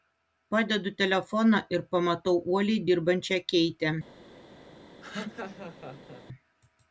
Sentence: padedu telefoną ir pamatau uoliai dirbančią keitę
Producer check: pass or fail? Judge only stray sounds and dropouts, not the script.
fail